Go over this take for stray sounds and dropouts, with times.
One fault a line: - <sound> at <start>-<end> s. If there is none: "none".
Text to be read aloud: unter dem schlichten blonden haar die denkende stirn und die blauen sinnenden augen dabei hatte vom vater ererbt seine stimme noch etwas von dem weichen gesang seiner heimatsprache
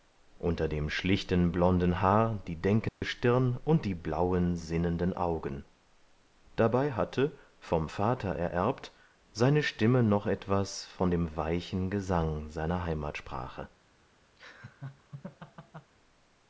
- dropout at 2.9-3.0 s
- laugh at 14.4-15.9 s